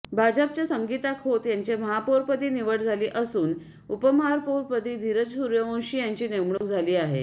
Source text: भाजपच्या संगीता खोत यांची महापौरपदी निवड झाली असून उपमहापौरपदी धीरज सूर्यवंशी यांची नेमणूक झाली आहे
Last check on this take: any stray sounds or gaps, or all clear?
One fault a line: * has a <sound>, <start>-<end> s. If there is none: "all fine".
* has a dropout, 6.6-6.6 s